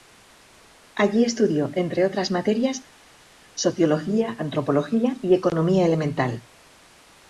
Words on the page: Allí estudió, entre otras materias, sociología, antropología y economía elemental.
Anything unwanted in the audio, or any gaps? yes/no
no